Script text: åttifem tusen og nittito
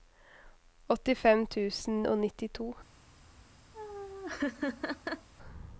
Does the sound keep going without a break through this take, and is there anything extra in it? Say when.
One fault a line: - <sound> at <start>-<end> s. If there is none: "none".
- laugh at 3.7-5.3 s